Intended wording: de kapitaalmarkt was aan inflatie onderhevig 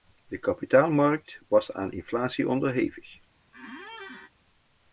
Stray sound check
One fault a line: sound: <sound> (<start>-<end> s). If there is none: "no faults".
sound: squeak (3.5-4.3 s)